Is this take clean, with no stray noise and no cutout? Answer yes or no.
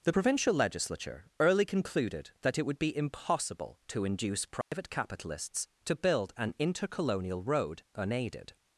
no